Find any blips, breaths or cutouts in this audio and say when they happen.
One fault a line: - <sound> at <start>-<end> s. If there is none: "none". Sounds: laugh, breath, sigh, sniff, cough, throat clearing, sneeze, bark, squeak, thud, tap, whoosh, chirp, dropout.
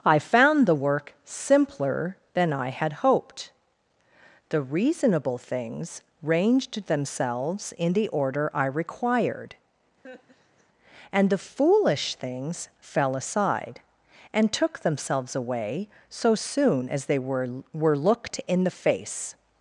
- laugh at 10.0-10.7 s